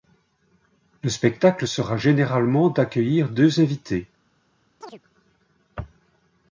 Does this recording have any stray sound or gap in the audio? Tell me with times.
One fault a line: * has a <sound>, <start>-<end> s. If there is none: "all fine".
* has a chirp, 4.8-5.0 s